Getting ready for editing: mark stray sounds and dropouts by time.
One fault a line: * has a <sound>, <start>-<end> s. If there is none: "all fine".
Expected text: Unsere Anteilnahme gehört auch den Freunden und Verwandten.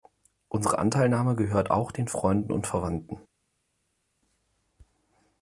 all fine